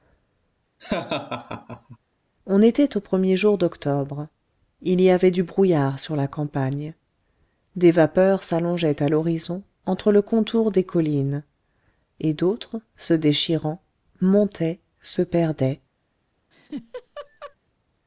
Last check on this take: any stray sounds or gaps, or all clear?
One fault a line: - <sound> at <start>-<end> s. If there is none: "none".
- laugh at 0.8-2.0 s
- laugh at 16.5-17.6 s